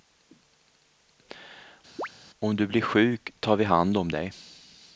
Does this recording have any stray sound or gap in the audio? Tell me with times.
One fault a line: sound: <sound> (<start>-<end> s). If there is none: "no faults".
sound: chirp (2.0-2.1 s)